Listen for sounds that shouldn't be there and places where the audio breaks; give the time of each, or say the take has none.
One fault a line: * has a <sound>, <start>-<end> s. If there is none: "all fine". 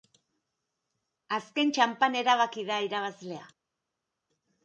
all fine